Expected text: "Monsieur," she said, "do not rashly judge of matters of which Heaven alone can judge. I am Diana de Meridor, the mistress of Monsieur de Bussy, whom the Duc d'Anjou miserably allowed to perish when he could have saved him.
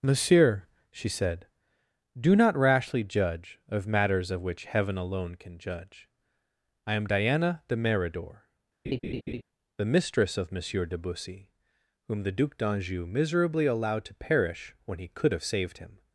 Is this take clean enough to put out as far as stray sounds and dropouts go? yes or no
no